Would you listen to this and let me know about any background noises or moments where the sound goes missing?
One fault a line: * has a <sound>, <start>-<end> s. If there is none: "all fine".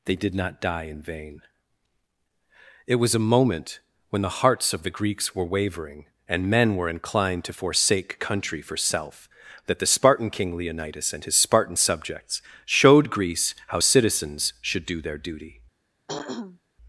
* has a throat clearing, 16.1-16.6 s